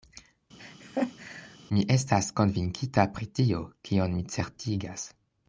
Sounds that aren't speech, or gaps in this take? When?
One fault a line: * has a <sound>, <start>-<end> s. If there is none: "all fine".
* has a laugh, 0.6-1.6 s